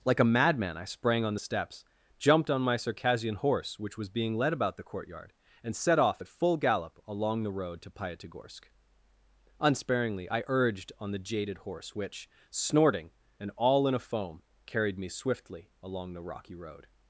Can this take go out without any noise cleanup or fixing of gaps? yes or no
yes